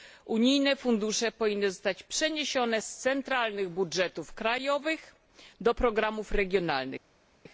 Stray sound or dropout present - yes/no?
no